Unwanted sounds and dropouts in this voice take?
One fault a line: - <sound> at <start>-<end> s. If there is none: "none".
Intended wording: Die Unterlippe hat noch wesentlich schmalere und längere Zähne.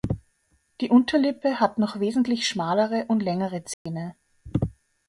- dropout at 3.7-3.9 s